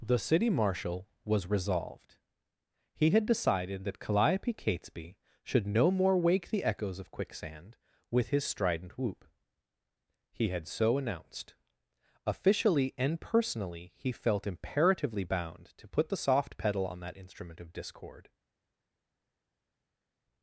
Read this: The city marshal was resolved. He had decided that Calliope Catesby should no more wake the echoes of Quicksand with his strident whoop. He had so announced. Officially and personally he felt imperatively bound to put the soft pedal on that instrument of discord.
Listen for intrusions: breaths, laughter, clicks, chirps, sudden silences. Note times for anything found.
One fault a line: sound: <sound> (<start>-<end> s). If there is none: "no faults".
no faults